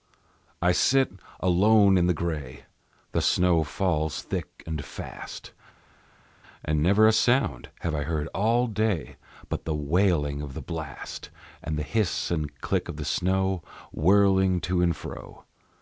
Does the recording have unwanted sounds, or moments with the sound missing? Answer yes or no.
no